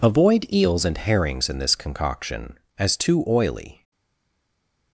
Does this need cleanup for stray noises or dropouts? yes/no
no